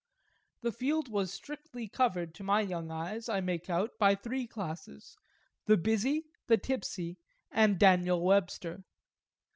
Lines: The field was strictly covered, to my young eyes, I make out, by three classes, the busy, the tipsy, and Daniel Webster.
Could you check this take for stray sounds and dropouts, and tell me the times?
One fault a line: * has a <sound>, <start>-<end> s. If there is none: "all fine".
all fine